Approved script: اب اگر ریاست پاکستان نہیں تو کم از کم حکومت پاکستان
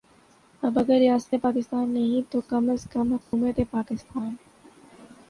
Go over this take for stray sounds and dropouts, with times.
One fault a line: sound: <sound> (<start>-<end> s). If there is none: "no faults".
sound: dropout (3.2-3.3 s)